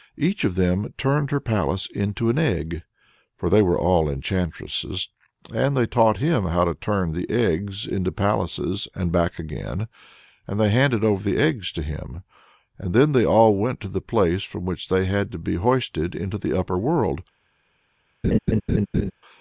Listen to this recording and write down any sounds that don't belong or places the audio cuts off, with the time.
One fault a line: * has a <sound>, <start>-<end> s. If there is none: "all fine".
* has a laugh, 18.2-19.1 s